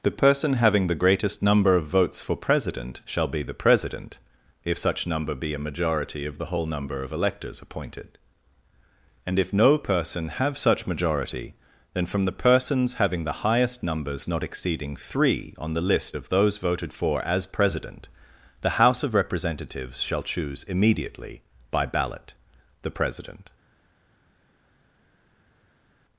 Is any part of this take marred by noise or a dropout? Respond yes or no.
no